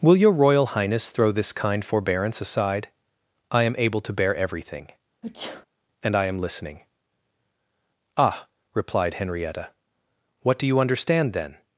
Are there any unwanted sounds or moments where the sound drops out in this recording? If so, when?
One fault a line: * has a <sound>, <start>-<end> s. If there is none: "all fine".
* has a sneeze, 5.2-5.7 s